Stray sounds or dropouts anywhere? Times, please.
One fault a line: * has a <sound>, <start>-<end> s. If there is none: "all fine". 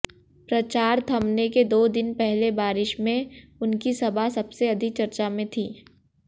all fine